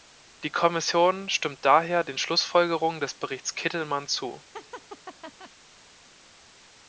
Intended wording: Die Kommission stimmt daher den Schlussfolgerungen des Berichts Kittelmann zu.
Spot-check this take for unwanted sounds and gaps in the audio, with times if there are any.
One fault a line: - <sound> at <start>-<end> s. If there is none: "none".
- laugh at 4.5-5.5 s